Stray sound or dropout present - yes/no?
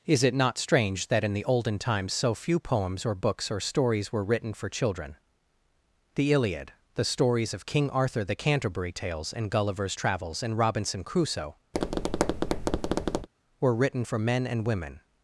yes